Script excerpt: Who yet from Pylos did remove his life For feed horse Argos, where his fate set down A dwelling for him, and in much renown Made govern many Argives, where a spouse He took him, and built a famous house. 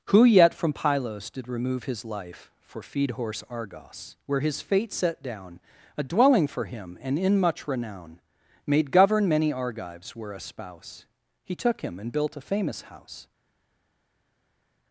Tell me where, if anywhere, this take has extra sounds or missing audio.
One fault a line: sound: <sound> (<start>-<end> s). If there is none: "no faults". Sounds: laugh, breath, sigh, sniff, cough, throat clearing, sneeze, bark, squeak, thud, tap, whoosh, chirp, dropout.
no faults